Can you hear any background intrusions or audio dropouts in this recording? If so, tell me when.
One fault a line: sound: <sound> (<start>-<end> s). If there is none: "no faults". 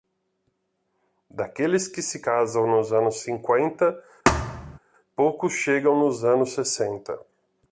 sound: thud (4.3-4.8 s)